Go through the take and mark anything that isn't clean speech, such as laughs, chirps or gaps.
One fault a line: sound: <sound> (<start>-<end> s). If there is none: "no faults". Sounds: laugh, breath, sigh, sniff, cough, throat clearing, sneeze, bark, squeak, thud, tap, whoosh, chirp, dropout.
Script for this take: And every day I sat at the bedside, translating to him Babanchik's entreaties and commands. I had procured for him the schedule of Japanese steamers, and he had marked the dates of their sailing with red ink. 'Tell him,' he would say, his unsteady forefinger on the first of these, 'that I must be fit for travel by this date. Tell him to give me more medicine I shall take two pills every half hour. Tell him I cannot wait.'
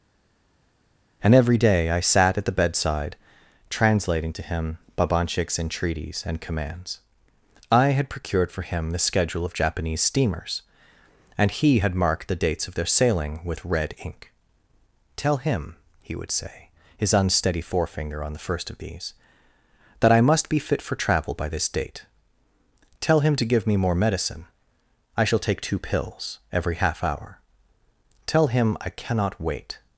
no faults